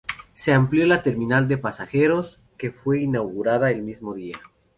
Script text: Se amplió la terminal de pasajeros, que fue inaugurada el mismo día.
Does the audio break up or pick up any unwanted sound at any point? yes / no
no